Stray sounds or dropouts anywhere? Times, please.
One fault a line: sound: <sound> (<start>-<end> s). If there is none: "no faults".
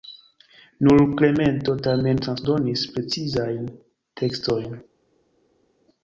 no faults